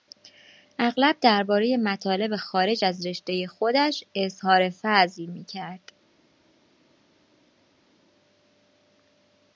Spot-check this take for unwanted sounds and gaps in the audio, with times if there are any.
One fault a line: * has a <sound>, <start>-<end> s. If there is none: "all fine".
all fine